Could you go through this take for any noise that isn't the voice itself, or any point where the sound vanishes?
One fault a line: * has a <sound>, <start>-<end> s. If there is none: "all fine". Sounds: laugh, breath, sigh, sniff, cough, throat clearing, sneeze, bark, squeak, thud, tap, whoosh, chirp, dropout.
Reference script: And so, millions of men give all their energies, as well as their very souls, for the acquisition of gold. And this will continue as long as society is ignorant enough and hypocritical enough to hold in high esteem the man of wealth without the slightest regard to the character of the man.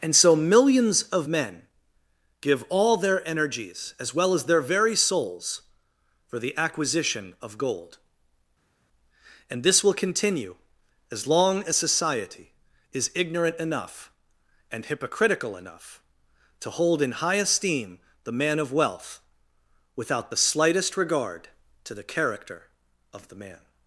all fine